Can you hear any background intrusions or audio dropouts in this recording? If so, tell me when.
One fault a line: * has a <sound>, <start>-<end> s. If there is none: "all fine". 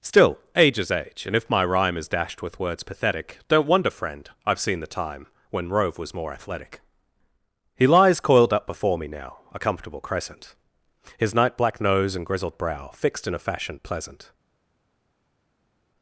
all fine